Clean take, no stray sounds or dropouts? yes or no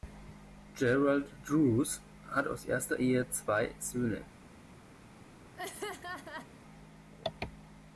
no